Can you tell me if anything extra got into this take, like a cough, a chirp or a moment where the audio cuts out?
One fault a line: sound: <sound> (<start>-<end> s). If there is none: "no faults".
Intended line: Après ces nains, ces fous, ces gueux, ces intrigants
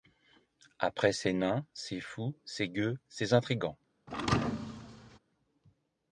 sound: thud (4.1-5.2 s)